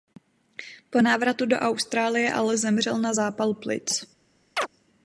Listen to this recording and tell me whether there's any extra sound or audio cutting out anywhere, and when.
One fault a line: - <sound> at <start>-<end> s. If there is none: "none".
- chirp at 4.6-4.7 s